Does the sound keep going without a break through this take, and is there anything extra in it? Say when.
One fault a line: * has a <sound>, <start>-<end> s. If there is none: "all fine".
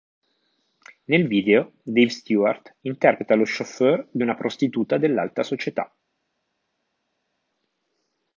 all fine